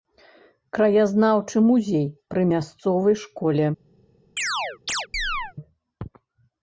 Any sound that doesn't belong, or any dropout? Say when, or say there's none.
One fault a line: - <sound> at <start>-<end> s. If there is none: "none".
- chirp at 4.4-5.5 s